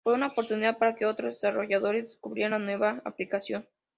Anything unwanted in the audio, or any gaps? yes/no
no